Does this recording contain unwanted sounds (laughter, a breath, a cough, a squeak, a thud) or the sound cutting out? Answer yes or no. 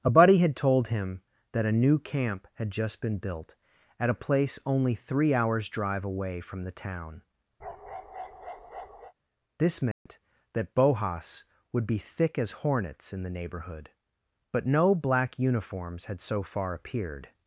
yes